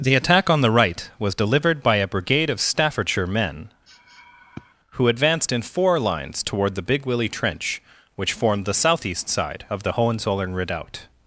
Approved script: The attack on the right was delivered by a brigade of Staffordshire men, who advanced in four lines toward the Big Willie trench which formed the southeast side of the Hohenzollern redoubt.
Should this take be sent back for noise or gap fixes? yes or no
yes